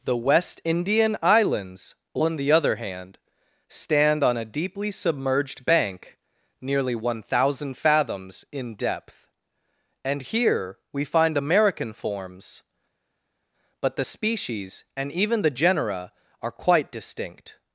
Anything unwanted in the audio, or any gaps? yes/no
no